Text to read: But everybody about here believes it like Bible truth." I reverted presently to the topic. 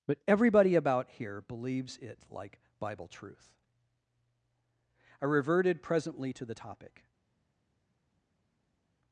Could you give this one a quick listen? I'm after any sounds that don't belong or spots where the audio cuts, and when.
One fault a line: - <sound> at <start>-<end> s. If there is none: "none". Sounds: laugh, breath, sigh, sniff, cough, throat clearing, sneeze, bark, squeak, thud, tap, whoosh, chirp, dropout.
none